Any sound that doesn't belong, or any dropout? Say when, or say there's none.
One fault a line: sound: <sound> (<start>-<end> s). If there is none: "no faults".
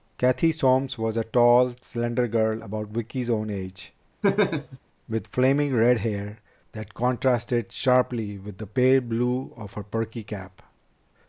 sound: laugh (4.2-4.8 s)